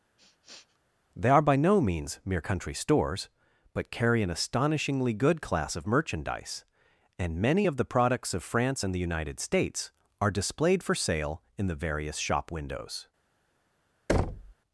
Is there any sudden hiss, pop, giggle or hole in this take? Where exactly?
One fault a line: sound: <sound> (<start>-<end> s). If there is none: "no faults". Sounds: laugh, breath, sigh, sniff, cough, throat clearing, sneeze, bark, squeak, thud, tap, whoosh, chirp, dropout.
sound: sniff (0.2-0.8 s)
sound: thud (14.1-14.5 s)